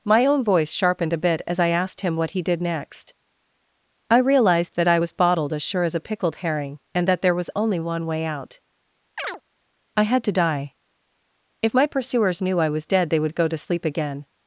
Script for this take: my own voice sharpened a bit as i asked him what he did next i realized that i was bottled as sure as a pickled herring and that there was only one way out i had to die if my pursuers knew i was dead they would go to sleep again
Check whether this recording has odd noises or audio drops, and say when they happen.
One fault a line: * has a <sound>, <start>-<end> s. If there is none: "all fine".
* has a chirp, 9.2-9.4 s